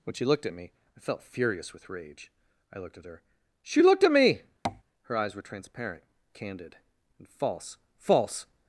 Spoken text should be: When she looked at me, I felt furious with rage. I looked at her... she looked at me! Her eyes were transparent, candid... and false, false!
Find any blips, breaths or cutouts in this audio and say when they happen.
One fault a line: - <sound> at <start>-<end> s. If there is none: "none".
- tap at 4.6-4.8 s